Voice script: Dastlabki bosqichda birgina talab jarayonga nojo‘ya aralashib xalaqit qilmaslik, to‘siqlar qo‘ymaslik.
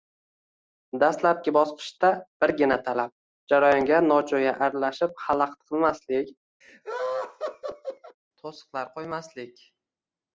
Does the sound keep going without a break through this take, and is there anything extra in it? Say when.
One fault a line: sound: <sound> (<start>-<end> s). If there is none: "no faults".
sound: laugh (6.6-8.2 s)